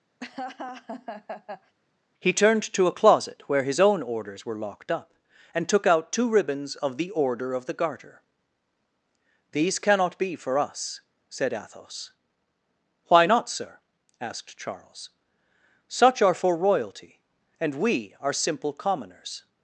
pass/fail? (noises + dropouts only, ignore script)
fail